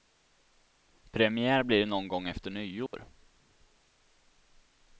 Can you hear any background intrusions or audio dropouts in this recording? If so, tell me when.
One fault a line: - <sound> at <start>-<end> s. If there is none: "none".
- dropout at 2.9-2.9 s